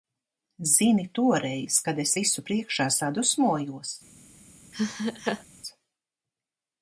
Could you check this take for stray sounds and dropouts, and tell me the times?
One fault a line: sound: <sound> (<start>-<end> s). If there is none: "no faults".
sound: laugh (4.7-5.4 s)